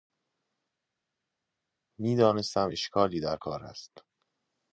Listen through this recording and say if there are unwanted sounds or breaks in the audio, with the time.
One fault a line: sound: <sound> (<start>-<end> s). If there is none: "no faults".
no faults